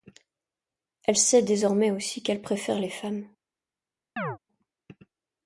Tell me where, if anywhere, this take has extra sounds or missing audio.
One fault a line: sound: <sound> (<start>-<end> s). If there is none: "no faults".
sound: chirp (4.2-4.4 s)